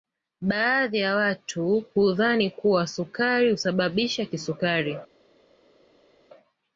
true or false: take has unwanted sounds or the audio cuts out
false